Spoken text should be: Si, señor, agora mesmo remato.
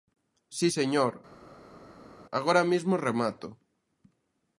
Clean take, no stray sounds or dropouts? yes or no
yes